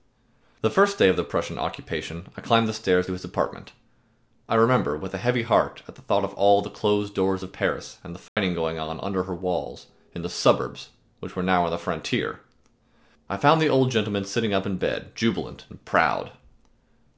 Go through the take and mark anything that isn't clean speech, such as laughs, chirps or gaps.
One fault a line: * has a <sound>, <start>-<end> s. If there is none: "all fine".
* has a dropout, 8.3-8.4 s